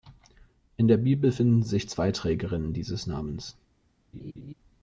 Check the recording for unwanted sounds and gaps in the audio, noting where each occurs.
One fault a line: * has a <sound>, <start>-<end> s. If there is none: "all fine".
* has a laugh, 4.1-4.5 s